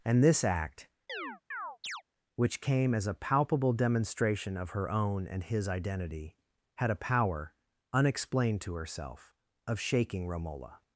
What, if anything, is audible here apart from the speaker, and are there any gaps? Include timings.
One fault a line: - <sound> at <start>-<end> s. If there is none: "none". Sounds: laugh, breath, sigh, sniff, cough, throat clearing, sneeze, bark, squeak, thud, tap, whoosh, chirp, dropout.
- chirp at 1.1-2.0 s